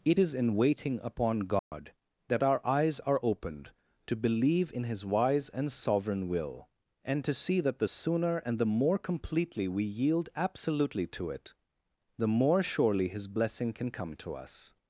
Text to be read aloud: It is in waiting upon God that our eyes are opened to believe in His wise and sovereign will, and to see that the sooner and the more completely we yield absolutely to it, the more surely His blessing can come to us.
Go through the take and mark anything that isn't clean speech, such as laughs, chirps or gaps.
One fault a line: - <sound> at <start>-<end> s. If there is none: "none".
- dropout at 1.6-1.7 s